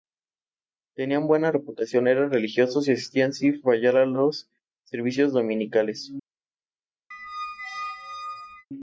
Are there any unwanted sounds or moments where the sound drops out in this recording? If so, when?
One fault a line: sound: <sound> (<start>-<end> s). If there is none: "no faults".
sound: squeak (7.1-8.7 s)